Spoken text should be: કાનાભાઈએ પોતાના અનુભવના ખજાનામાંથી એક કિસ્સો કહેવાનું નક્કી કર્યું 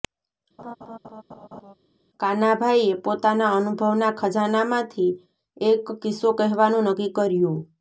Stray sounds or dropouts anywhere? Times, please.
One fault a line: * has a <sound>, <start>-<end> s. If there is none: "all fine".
* has a laugh, 0.6-1.7 s